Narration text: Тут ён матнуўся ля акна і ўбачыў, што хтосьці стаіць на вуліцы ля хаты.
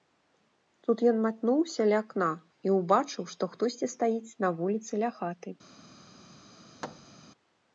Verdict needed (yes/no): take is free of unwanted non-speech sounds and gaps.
no